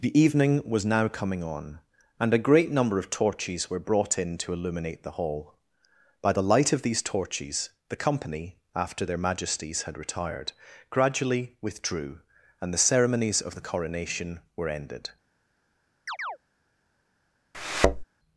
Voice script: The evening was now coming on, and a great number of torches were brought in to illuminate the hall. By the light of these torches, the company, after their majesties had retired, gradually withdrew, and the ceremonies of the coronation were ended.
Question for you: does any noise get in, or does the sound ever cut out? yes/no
yes